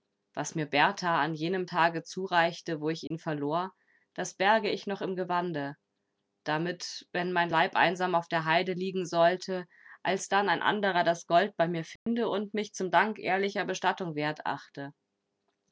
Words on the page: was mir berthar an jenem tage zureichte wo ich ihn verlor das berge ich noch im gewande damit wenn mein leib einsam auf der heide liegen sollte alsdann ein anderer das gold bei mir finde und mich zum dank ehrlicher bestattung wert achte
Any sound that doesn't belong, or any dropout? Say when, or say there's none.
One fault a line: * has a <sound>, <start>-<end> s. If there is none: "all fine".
* has a dropout, 3.1-3.1 s
* has a dropout, 12.0-12.1 s